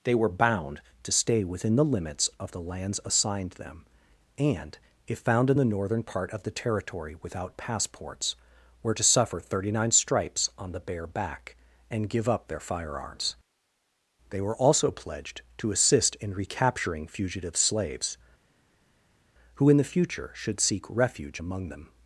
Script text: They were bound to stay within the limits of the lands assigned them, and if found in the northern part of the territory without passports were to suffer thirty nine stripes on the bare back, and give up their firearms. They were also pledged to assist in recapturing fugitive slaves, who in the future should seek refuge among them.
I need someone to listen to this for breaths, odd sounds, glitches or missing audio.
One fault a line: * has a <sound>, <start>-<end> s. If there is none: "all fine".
all fine